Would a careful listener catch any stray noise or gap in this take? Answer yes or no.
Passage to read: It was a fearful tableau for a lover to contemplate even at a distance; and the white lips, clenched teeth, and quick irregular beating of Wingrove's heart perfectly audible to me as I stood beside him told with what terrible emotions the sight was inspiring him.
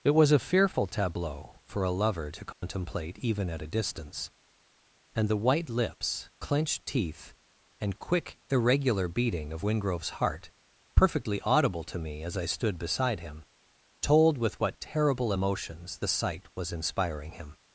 yes